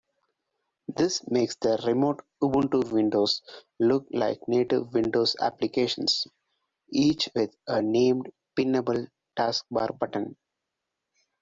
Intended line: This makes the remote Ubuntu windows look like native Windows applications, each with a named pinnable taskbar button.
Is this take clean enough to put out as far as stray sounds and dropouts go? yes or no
yes